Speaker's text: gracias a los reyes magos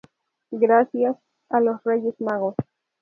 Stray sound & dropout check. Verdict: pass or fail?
pass